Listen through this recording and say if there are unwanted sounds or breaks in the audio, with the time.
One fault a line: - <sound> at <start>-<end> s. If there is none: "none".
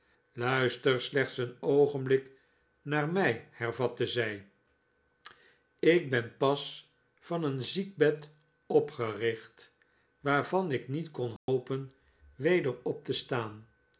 - dropout at 11.4-11.5 s